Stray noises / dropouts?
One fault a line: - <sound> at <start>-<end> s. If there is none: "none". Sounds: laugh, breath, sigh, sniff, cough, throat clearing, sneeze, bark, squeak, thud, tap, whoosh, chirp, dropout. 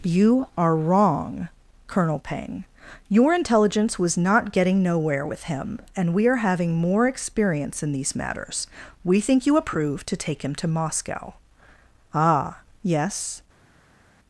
none